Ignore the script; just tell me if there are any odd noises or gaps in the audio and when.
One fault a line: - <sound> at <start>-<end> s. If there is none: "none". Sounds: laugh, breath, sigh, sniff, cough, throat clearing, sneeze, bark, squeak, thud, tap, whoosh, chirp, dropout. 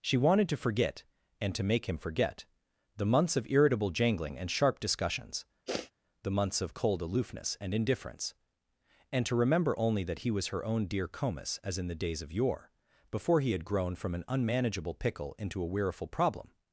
- sniff at 5.7-5.9 s